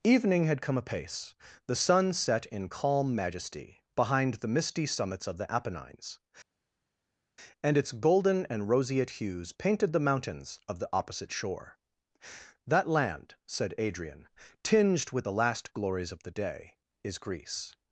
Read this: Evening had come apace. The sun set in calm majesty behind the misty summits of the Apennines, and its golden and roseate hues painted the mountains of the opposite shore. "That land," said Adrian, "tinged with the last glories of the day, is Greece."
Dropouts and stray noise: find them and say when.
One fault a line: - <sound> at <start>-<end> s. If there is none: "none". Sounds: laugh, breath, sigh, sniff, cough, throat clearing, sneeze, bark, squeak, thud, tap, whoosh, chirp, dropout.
none